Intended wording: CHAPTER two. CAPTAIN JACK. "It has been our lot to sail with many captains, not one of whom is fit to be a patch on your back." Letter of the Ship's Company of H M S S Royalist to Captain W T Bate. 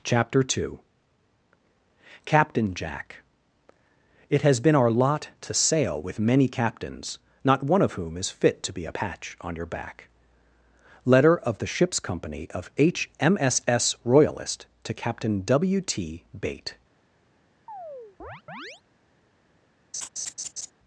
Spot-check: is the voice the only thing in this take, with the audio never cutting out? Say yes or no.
no